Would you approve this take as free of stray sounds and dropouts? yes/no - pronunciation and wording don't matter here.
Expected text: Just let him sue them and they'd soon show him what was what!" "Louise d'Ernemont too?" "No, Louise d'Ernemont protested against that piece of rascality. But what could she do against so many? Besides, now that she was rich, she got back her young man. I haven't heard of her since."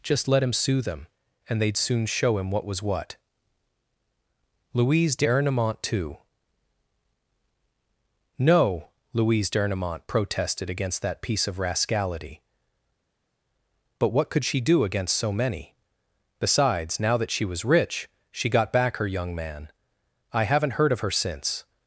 yes